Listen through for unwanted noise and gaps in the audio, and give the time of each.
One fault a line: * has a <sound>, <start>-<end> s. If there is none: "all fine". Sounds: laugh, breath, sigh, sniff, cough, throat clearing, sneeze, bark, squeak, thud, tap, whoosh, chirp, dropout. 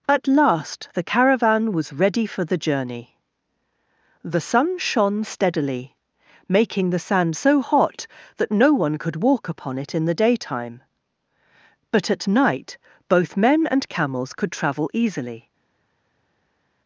all fine